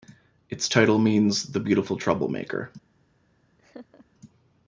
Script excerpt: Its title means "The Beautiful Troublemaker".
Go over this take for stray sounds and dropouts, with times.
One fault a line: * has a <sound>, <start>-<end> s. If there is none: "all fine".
* has a laugh, 3.6-4.1 s